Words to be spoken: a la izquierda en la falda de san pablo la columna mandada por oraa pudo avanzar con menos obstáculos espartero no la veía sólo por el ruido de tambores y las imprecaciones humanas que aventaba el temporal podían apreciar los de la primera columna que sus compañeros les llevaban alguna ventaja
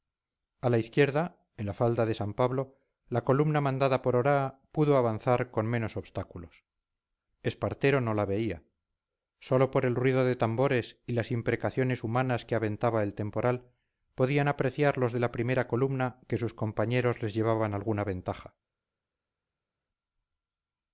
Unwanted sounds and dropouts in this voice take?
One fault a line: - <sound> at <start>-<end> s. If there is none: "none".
none